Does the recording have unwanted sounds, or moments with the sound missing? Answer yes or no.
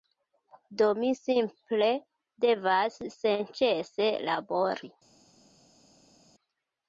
no